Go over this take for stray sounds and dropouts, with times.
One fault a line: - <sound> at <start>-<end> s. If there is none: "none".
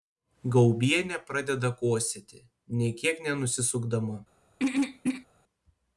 - throat clearing at 4.6-5.3 s